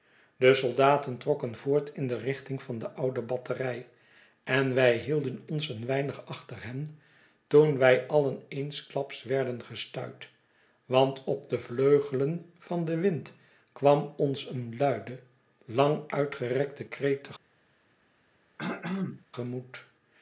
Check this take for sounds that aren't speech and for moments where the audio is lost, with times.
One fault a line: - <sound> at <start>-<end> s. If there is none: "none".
- throat clearing at 18.6-19.3 s